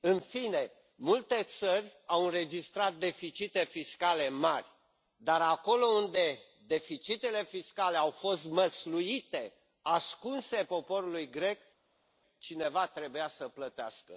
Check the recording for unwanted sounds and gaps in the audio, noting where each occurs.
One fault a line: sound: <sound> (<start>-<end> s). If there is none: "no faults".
no faults